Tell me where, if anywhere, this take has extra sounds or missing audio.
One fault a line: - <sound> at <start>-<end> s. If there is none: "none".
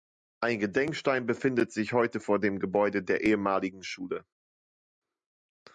none